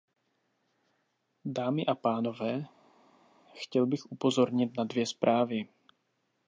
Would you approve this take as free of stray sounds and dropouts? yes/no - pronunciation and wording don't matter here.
yes